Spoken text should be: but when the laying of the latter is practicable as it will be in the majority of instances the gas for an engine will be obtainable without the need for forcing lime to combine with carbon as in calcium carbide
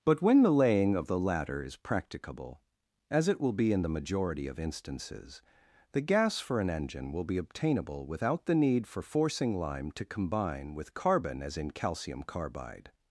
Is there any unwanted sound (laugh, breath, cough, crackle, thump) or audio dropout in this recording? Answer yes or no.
no